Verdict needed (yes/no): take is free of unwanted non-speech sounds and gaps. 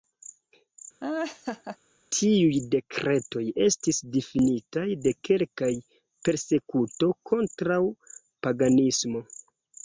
no